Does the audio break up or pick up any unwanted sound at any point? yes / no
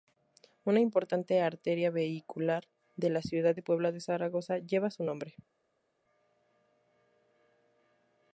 no